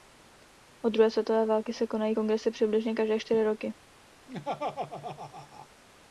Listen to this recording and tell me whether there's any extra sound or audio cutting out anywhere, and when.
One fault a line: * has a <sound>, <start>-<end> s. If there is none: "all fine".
* has a laugh, 4.3-5.7 s